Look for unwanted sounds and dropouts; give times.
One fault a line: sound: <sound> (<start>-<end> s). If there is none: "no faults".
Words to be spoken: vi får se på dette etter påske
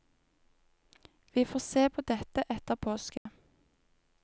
sound: dropout (3.2-3.3 s)